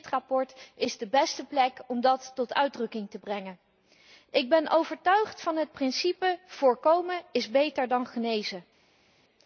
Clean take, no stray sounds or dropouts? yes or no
yes